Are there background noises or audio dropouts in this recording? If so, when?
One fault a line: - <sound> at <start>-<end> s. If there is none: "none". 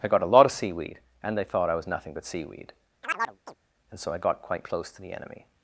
- chirp at 3.0-3.6 s